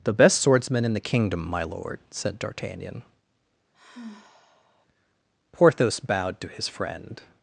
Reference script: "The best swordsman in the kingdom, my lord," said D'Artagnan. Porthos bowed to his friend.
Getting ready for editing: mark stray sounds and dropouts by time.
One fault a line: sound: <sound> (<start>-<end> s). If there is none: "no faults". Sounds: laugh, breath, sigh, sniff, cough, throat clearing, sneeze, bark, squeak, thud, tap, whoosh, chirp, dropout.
sound: sigh (3.7-4.9 s)